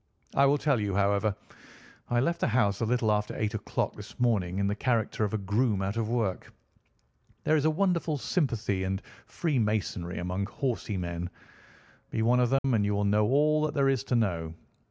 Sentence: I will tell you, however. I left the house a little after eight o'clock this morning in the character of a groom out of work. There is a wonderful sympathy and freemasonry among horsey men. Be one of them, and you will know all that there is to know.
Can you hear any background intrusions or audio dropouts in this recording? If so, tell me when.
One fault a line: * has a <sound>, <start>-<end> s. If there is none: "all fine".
* has a dropout, 12.6-12.6 s